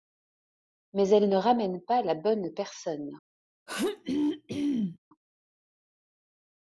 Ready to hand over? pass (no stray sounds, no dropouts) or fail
fail